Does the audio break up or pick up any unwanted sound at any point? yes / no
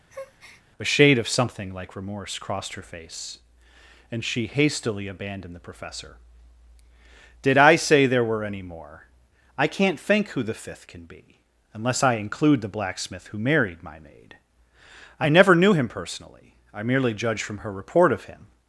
yes